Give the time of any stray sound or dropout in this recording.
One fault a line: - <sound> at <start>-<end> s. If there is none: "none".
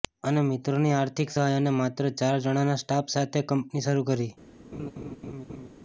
- laugh at 4.7-5.7 s